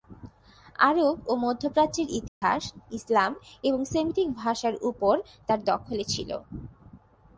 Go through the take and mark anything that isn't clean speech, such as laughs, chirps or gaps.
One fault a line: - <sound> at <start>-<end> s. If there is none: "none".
- dropout at 2.3-2.4 s